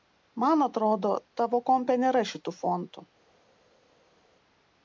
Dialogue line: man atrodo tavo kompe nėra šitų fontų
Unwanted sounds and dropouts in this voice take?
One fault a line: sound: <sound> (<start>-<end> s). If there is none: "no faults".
no faults